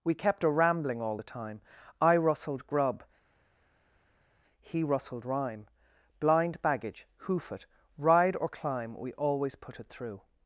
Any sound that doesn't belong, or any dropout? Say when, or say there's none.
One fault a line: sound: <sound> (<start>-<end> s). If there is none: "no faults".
no faults